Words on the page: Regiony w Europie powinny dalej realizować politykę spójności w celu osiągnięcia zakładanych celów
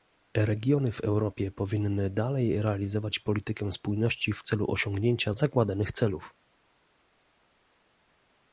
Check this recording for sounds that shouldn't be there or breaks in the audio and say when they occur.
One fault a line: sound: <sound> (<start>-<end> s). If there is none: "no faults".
no faults